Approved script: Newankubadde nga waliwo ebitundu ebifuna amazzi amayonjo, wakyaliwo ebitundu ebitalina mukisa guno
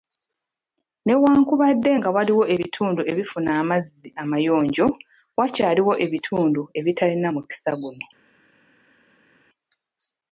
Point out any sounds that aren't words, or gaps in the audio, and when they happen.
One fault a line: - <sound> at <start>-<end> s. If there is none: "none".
none